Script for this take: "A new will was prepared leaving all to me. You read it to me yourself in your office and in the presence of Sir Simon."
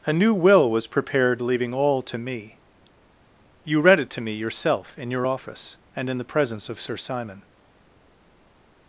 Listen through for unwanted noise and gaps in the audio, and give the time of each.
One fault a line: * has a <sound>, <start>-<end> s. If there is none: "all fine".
all fine